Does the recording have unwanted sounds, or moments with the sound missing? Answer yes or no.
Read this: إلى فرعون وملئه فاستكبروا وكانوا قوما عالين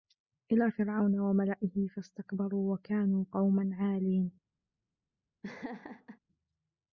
yes